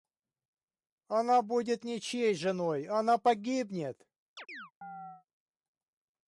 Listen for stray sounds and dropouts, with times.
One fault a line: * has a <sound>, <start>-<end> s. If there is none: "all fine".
* has a chirp, 4.4-5.3 s